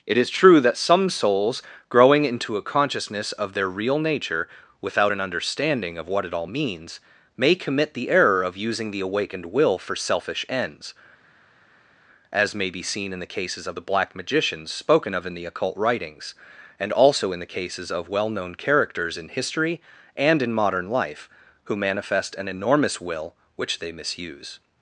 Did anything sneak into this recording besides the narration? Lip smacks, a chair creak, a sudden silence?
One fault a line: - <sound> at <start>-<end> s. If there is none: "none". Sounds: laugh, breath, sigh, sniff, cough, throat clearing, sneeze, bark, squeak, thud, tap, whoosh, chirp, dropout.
none